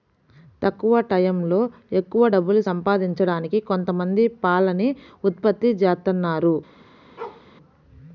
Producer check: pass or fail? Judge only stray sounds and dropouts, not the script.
fail